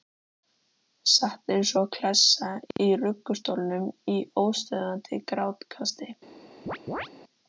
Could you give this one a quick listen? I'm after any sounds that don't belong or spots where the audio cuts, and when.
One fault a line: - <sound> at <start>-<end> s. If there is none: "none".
- chirp at 6.7-7.1 s